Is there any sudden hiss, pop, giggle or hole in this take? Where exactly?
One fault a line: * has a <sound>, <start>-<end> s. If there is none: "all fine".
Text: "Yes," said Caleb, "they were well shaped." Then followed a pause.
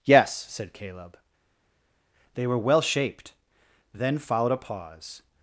all fine